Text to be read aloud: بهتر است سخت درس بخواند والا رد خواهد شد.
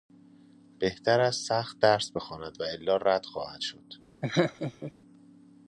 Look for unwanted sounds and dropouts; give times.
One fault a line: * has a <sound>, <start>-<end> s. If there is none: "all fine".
* has a laugh, 4.2-4.9 s